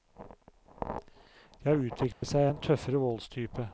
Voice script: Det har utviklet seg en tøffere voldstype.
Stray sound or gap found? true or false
true